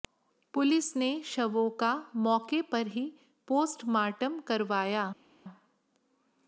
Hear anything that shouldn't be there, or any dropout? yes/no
no